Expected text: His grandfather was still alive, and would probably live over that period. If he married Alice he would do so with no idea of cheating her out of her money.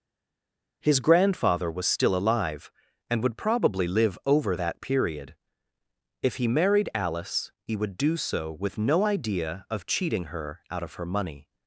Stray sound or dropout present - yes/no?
no